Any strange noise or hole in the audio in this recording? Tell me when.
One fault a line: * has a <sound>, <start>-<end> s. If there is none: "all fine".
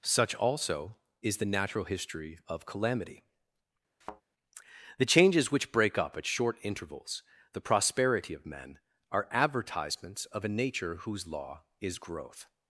* has a thud, 4.0-4.2 s